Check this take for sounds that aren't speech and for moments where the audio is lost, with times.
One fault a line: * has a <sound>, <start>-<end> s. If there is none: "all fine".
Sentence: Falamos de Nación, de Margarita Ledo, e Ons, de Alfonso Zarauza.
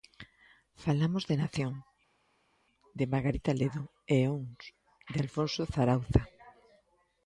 all fine